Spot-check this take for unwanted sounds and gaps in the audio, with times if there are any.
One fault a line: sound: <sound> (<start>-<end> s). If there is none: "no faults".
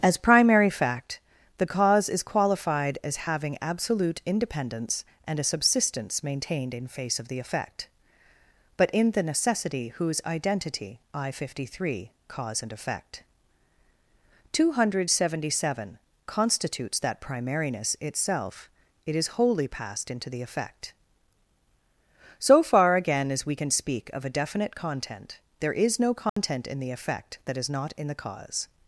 sound: dropout (26.3-26.4 s)